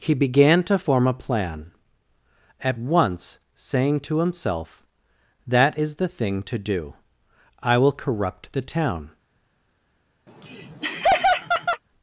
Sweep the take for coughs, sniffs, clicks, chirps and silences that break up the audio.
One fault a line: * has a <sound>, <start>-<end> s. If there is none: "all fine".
* has a laugh, 10.3-11.8 s